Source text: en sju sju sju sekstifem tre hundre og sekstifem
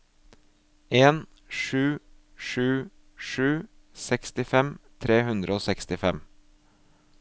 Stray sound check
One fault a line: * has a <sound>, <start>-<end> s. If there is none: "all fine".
all fine